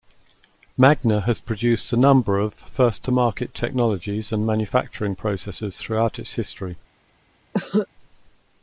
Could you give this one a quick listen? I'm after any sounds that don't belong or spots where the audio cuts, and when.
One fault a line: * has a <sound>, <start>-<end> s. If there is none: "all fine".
* has a cough, 7.5-7.9 s